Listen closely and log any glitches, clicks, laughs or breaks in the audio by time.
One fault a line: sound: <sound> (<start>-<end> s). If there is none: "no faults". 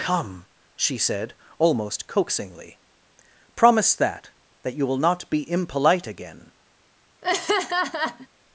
sound: laugh (7.2-8.3 s)